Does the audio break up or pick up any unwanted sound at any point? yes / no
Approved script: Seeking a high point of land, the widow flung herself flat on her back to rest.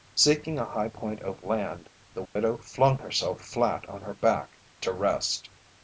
yes